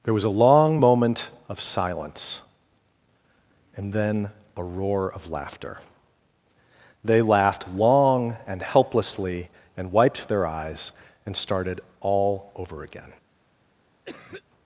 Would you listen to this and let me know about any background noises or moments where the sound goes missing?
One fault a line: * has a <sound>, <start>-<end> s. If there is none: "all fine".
* has a cough, 14.0-14.4 s